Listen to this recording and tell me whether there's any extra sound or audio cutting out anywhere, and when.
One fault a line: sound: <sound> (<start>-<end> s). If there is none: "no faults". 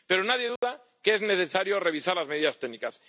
sound: dropout (0.6-0.6 s)